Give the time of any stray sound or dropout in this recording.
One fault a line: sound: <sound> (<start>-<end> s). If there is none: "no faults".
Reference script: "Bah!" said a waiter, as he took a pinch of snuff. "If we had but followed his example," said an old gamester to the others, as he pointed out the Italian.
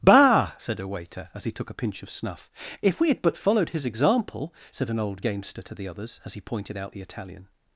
no faults